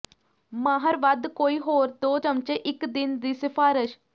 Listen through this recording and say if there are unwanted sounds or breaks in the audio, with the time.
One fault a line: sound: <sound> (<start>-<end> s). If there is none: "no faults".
no faults